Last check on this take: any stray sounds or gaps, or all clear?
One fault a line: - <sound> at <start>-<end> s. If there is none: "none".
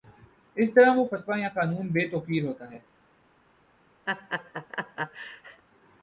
- laugh at 4.1-5.6 s